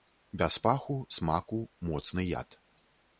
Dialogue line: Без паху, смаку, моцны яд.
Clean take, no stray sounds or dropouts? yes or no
yes